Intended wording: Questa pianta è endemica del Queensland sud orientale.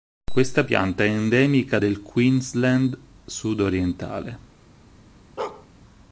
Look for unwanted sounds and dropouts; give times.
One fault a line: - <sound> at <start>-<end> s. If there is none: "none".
- bark at 5.4-5.7 s